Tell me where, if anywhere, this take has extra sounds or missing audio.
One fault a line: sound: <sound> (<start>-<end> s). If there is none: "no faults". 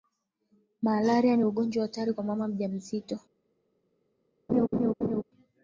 sound: laugh (4.5-5.2 s)